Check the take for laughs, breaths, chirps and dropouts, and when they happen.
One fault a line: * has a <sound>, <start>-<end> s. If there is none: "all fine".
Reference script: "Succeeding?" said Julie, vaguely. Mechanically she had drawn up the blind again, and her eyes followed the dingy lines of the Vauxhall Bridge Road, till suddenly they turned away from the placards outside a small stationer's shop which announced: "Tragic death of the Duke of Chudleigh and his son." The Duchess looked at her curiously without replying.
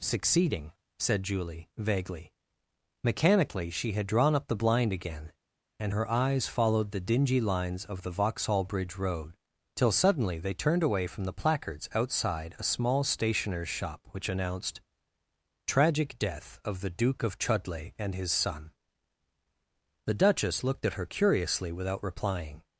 all fine